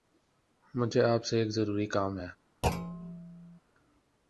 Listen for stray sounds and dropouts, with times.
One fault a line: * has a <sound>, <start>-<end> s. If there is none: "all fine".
* has a thud, 2.6-3.6 s